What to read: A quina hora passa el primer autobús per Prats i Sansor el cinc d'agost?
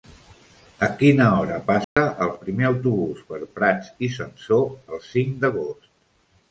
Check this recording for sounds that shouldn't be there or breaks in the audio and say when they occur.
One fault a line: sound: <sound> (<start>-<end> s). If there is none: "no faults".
sound: dropout (1.8-2.0 s)